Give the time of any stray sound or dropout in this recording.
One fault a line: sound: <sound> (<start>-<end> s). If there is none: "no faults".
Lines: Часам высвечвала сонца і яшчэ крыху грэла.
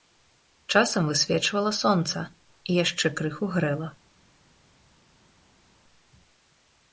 no faults